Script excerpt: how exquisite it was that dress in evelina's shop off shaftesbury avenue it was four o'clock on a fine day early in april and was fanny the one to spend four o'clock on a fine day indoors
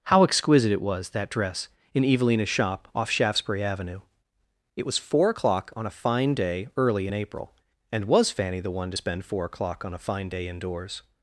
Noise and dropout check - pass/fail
pass